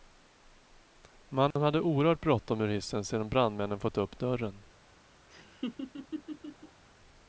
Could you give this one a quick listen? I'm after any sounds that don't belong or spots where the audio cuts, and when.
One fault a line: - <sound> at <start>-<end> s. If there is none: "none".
- dropout at 1.5-1.6 s
- laugh at 5.3-6.8 s